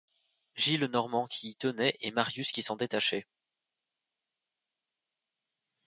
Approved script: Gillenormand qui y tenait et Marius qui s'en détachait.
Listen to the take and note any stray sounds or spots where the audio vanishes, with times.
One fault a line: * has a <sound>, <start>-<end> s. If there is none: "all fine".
all fine